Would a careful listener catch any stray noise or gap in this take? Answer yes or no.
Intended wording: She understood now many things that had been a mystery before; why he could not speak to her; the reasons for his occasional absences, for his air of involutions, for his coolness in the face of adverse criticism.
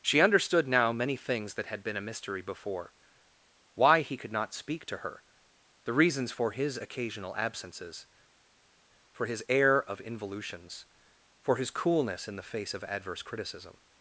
no